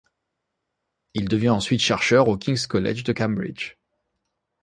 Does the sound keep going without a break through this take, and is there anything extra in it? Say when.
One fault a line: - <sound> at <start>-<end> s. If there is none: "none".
none